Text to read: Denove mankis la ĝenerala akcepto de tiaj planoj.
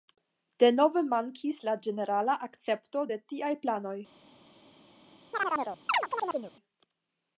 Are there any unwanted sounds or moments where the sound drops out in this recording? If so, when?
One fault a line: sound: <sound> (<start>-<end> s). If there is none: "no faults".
sound: chirp (5.3-6.5 s)